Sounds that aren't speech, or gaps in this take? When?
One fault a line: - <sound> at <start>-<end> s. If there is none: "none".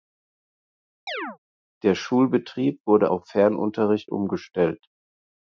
- chirp at 1.1-1.4 s